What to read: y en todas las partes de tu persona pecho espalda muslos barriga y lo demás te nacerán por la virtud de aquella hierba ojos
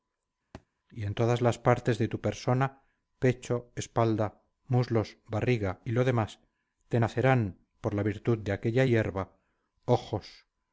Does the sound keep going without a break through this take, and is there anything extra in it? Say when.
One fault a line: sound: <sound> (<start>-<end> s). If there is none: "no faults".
sound: thud (0.5-0.7 s)